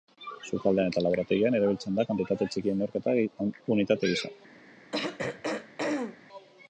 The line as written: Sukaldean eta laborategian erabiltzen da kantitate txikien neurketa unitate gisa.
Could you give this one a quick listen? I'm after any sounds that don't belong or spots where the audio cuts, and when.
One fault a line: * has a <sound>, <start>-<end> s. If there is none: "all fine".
* has a throat clearing, 4.9-6.2 s